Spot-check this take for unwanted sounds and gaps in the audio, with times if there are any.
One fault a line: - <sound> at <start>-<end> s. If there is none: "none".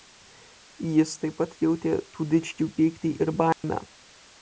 - dropout at 3.5-3.6 s